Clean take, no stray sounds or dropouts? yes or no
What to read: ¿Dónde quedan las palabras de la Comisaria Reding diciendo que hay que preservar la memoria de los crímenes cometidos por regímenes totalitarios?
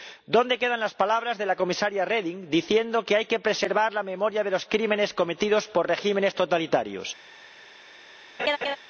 no